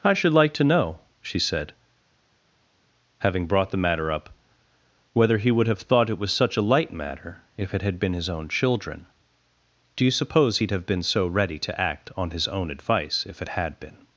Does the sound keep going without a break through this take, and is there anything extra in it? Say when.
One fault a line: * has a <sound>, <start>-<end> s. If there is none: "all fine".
all fine